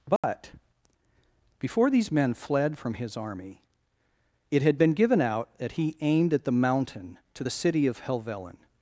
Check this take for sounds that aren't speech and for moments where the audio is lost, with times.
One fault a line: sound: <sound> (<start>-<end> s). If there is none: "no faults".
sound: dropout (0.2-0.2 s)